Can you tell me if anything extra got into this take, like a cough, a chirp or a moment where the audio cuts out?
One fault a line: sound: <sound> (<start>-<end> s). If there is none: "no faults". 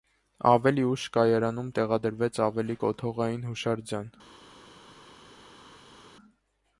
no faults